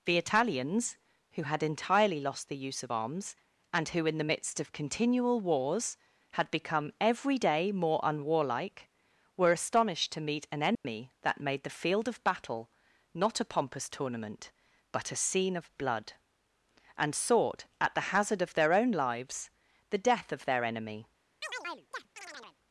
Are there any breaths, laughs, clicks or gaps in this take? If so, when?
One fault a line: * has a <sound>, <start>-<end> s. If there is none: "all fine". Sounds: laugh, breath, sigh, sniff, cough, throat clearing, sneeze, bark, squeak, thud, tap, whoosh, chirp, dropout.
* has a dropout, 10.7-10.8 s
* has a chirp, 21.4-22.6 s